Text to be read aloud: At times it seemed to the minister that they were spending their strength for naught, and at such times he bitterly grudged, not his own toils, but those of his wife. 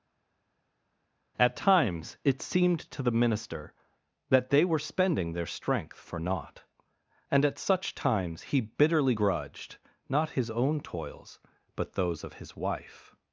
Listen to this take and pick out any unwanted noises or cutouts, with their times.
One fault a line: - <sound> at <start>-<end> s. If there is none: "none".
none